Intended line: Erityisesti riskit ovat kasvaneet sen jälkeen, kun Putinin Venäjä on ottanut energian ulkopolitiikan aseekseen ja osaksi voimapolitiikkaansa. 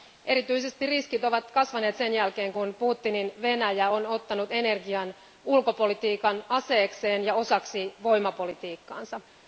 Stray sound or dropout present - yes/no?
no